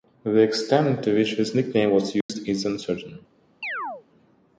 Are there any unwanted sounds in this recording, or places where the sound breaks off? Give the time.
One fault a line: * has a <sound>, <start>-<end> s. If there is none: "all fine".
* has a dropout, 2.2-2.3 s
* has a chirp, 3.6-4.0 s